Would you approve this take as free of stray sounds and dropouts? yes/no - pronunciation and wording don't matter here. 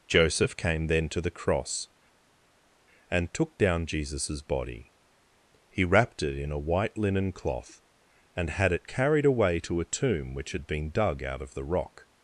yes